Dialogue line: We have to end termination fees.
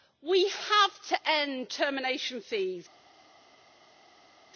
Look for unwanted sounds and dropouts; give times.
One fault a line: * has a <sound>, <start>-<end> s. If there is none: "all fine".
all fine